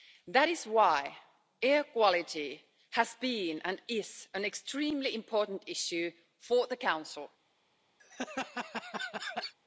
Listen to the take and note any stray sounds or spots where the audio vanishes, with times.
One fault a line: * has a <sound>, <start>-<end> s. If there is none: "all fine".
* has a laugh, 8.0-9.5 s